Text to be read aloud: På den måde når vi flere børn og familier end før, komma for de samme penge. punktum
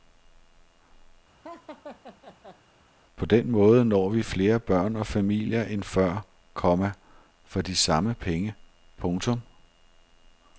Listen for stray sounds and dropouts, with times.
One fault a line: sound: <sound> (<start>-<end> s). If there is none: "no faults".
sound: laugh (1.4-2.6 s)